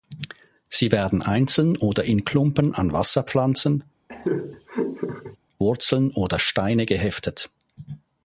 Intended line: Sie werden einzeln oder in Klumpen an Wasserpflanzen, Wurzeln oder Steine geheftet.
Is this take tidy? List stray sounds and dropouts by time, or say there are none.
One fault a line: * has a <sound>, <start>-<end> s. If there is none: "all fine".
* has a laugh, 4.1-5.4 s